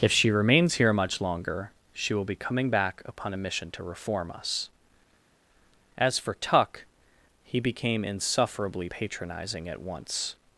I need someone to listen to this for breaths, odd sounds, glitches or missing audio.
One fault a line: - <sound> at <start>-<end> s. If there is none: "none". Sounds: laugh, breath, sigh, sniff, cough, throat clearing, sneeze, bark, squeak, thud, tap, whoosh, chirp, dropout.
none